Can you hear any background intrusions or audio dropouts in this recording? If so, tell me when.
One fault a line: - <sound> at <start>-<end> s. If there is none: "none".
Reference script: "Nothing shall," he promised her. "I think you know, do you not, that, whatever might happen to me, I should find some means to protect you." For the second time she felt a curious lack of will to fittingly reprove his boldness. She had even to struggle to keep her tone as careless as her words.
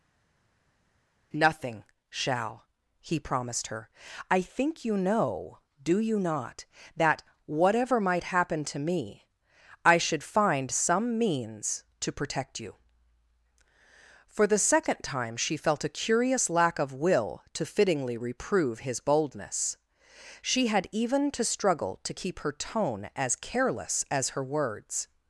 none